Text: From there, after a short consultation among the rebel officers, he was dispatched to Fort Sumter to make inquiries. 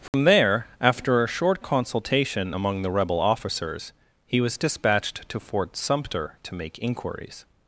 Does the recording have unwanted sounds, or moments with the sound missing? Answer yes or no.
yes